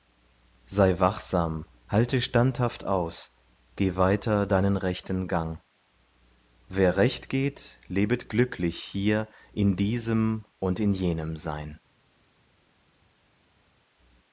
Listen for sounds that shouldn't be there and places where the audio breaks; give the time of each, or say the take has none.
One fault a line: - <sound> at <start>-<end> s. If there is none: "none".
none